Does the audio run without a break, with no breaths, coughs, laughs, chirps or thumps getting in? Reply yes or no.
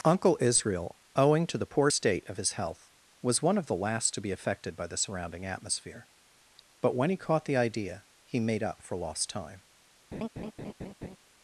no